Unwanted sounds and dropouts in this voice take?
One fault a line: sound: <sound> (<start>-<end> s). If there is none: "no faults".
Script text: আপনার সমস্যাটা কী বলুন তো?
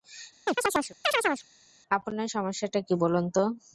sound: chirp (0.5-1.5 s)